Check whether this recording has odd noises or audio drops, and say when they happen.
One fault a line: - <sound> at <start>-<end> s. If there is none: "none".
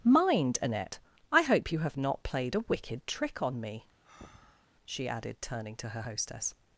- breath at 4.0-4.7 s